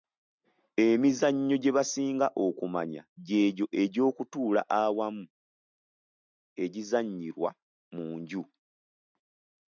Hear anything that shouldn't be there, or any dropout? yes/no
no